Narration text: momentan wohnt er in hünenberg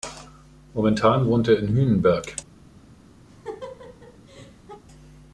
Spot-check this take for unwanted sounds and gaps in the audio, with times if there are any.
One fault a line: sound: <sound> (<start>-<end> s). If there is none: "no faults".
sound: laugh (3.3-4.8 s)